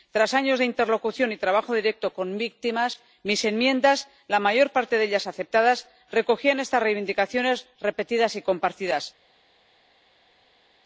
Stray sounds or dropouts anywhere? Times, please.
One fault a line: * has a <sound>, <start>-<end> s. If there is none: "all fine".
all fine